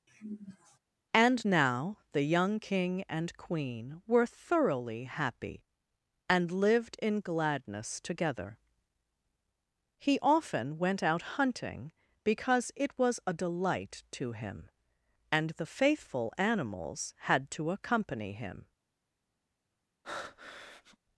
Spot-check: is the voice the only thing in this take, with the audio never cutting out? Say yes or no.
no